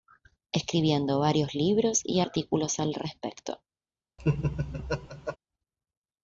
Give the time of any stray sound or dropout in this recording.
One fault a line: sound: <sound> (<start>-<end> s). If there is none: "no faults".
sound: laugh (4.2-5.4 s)